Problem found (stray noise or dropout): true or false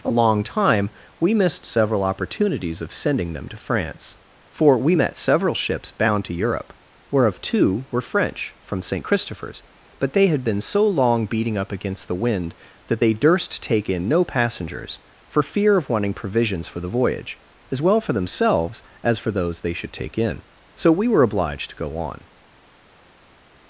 false